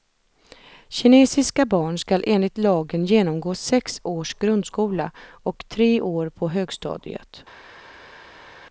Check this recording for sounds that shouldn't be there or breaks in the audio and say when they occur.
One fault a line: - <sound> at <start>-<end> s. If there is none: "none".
none